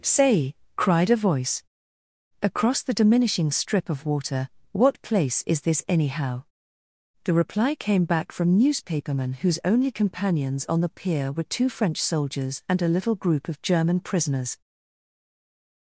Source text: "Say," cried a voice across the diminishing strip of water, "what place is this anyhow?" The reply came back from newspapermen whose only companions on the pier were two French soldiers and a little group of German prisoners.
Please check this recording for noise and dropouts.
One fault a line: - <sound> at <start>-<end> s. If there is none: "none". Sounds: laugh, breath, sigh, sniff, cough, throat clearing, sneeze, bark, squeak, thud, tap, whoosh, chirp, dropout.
none